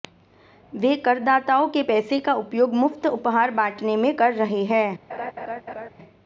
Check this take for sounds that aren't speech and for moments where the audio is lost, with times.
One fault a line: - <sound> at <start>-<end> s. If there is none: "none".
- laugh at 5.1-5.9 s